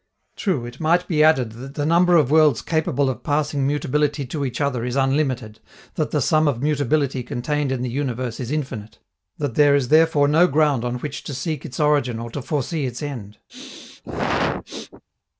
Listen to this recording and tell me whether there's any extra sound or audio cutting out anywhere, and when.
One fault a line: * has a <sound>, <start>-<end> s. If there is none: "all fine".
* has a sneeze, 13.5-15.0 s